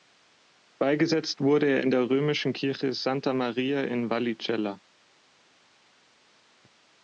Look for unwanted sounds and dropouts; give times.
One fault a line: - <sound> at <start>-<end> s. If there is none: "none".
none